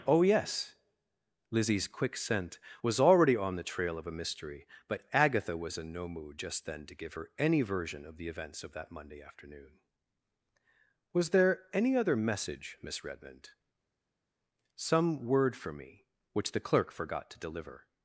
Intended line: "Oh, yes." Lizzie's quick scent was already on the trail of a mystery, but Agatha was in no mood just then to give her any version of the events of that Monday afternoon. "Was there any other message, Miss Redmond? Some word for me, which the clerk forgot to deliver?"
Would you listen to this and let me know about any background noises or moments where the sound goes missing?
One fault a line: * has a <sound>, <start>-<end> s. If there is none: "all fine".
all fine